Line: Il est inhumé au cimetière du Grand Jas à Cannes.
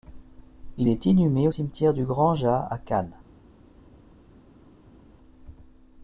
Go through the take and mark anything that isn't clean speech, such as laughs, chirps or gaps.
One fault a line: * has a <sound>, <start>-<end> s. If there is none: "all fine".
all fine